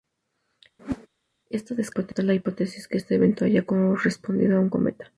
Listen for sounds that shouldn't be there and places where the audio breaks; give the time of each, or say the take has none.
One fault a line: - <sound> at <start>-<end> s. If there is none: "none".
- whoosh at 0.8-1.1 s